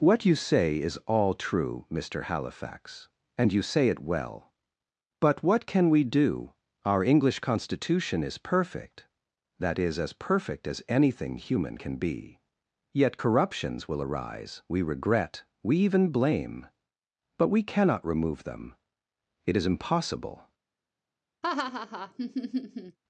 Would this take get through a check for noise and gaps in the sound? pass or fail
fail